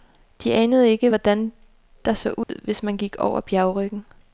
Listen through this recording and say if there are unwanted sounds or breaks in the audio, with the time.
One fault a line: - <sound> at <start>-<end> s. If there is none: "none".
- dropout at 2.4-2.5 s